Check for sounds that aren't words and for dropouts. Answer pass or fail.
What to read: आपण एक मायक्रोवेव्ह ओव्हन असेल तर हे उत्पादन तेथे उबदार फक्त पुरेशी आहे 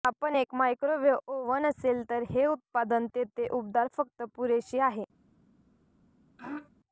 fail